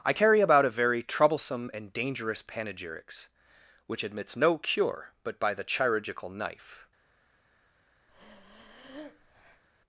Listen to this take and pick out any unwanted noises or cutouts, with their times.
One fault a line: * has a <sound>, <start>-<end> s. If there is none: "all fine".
* has a breath, 8.1-9.6 s